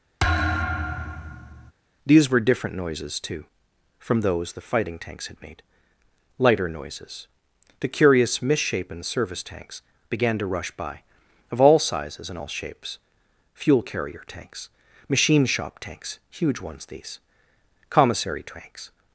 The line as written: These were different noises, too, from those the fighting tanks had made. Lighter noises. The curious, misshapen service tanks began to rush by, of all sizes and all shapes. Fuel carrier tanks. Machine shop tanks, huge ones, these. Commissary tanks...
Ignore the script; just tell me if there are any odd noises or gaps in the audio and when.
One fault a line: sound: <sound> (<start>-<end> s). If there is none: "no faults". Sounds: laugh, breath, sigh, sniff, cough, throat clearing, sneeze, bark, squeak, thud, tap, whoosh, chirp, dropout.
sound: thud (0.2-1.7 s)